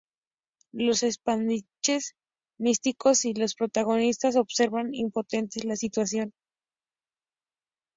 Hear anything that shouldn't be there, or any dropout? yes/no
no